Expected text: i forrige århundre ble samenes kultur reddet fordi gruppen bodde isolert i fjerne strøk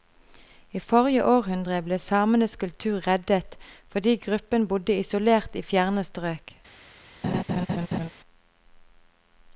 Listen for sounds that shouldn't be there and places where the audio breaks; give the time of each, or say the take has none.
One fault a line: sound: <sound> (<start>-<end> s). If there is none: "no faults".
sound: laugh (7.2-8.1 s)